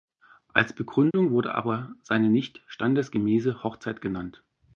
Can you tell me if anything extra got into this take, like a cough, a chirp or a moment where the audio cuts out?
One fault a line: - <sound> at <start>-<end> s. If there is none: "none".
- dropout at 1.1-1.1 s